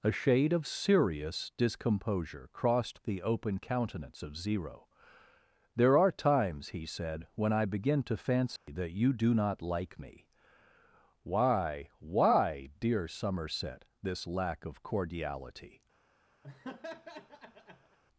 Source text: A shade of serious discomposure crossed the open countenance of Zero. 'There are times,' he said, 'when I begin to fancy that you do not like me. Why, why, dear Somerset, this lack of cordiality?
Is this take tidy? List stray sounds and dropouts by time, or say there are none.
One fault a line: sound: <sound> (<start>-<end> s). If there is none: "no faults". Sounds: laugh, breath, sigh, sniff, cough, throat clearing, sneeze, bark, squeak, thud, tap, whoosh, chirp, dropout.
sound: dropout (8.6-8.7 s)
sound: laugh (16.4-18.0 s)